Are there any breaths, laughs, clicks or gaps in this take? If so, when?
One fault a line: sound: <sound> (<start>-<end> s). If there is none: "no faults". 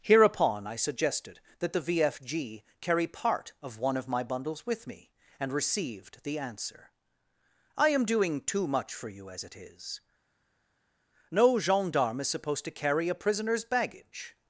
no faults